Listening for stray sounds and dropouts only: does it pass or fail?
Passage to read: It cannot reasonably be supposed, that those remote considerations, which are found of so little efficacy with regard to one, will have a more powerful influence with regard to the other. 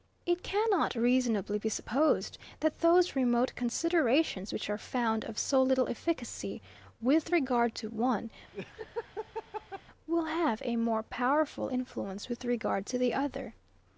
fail